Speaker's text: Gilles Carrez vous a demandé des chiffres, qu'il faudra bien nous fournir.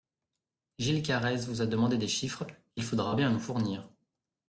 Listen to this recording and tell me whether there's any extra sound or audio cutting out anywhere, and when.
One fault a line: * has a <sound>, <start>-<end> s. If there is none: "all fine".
all fine